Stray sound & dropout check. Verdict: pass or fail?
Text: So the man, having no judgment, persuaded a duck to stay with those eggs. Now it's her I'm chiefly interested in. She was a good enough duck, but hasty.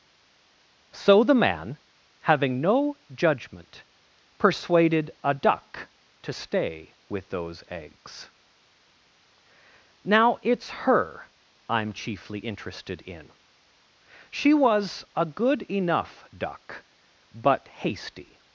pass